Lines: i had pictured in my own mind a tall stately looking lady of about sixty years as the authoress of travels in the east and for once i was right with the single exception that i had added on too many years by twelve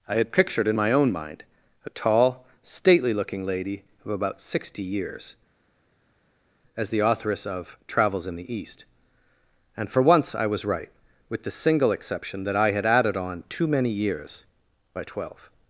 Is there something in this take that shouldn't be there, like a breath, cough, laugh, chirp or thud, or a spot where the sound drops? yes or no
no